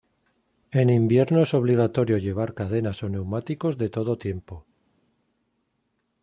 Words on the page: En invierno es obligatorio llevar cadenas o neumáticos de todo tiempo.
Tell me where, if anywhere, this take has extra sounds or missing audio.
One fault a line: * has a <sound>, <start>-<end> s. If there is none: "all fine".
all fine